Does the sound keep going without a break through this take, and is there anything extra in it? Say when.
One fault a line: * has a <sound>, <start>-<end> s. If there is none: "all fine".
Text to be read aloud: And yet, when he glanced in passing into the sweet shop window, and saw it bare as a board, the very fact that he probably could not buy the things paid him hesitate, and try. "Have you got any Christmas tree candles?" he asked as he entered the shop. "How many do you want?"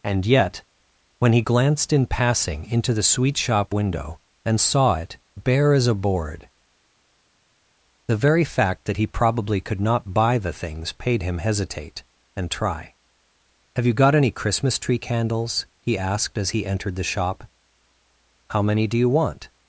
all fine